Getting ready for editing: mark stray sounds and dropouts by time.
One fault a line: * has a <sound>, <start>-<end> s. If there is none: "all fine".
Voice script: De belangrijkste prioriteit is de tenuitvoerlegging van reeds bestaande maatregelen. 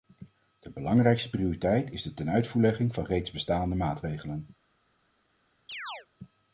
* has a chirp, 5.7-6.1 s